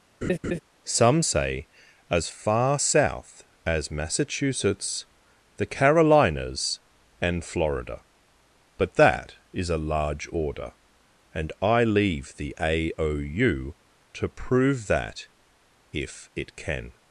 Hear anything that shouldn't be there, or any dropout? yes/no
yes